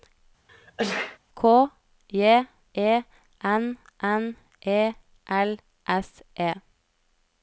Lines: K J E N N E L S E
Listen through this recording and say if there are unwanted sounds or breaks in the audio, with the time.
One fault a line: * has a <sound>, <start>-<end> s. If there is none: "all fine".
* has a sneeze, 0.5-1.2 s